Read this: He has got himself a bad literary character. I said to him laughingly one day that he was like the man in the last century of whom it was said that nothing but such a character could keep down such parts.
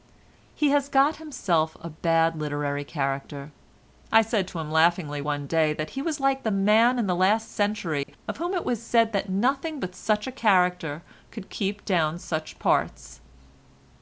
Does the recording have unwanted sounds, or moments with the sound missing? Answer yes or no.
yes